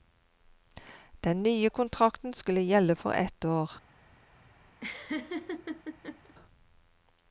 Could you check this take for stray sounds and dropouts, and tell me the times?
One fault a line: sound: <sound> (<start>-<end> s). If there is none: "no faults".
sound: laugh (4.8-6.3 s)